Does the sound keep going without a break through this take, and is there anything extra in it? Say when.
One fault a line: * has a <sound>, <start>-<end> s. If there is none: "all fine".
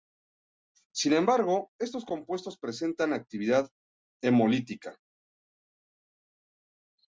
all fine